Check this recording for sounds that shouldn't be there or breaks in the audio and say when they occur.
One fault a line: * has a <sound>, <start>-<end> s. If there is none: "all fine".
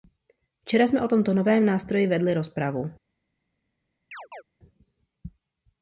* has a chirp, 4.1-4.4 s